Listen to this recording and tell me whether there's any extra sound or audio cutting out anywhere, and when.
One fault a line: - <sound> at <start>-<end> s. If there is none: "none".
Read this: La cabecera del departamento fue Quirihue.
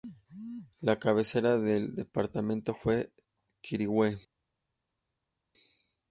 none